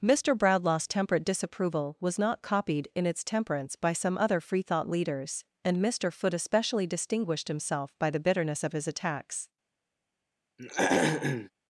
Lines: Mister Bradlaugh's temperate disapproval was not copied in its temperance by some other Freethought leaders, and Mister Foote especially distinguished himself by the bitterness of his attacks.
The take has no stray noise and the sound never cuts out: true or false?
false